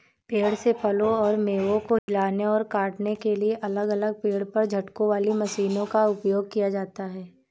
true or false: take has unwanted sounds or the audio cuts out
true